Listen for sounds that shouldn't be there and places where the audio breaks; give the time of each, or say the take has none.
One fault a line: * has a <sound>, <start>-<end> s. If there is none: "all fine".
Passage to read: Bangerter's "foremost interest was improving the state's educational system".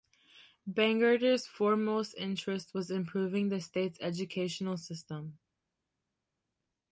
all fine